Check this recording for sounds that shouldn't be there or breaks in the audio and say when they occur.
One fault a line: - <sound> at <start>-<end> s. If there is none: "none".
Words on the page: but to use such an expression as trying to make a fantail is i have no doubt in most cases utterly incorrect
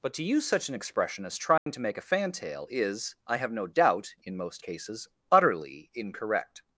- dropout at 1.6-1.7 s